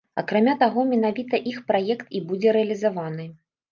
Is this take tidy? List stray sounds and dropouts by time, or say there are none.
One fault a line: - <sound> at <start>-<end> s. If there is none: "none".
none